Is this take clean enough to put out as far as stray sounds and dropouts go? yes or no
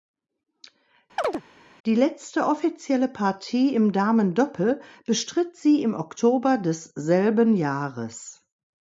no